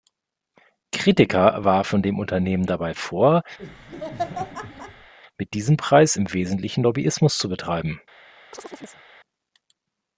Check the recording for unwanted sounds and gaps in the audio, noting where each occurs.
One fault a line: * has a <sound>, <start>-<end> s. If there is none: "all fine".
* has a laugh, 3.6-5.1 s
* has a chirp, 8.5-9.0 s